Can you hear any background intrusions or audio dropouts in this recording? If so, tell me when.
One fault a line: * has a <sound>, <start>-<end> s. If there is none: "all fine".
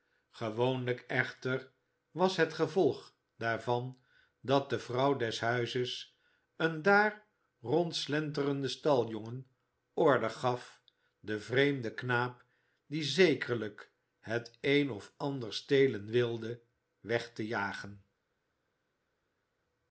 all fine